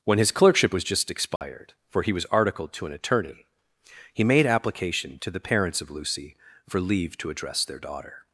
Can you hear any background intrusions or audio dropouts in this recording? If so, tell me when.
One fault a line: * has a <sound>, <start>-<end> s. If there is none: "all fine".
* has a dropout, 1.4-1.4 s